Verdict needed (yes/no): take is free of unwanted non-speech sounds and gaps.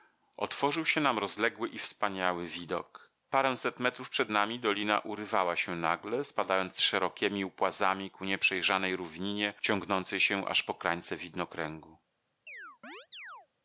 no